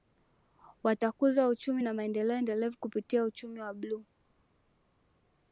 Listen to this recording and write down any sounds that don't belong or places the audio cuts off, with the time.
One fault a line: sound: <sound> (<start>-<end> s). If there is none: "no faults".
no faults